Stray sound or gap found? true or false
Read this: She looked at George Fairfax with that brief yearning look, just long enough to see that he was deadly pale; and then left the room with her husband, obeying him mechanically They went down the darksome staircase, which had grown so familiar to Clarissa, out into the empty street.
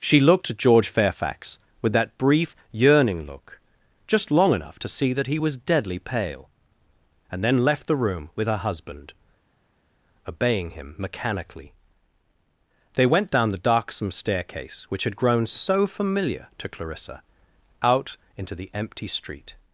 false